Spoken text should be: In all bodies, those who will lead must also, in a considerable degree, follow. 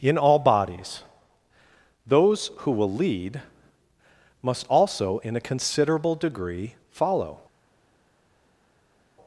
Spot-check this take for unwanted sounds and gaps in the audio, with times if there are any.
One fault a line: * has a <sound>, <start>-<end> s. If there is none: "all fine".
all fine